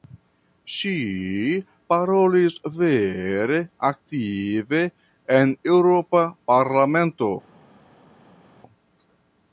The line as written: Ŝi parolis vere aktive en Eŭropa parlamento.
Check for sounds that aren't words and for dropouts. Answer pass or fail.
pass